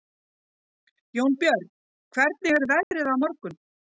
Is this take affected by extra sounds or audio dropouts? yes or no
yes